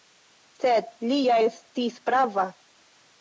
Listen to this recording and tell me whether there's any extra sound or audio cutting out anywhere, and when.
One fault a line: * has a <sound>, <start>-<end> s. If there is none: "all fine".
all fine